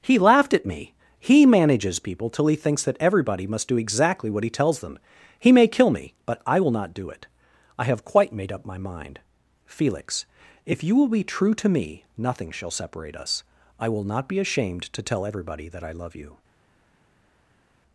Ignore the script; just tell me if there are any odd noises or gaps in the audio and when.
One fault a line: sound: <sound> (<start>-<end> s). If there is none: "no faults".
no faults